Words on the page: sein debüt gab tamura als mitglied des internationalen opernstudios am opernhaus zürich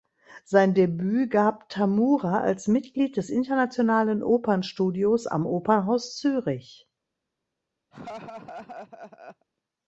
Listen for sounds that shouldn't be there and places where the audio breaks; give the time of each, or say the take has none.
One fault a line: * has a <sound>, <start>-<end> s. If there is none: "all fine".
* has a laugh, 7.9-9.5 s